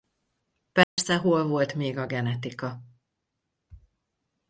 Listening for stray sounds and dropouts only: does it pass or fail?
fail